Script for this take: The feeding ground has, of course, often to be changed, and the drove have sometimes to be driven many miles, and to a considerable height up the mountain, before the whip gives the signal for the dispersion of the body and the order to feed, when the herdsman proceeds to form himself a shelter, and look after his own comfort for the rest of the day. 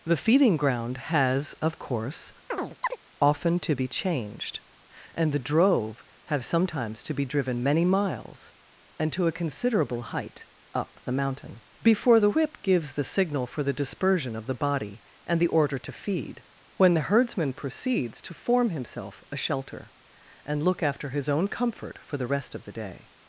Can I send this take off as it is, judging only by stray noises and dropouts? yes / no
no